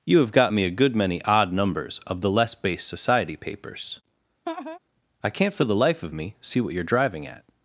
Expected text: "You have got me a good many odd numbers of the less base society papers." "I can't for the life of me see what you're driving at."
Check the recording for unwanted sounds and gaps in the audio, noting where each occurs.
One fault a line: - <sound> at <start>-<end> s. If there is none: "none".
- laugh at 4.5-4.8 s